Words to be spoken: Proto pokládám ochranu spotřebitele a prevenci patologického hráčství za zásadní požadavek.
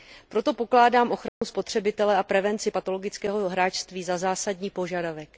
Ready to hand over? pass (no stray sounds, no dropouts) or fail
fail